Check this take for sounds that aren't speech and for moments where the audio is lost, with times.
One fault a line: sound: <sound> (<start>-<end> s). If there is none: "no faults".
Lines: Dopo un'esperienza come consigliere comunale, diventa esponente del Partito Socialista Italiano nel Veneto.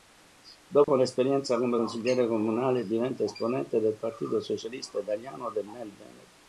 sound: dropout (0.8-0.9 s)